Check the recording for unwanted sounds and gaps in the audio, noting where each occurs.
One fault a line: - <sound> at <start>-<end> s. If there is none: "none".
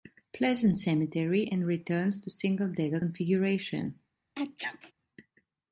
- sneeze at 4.4-4.9 s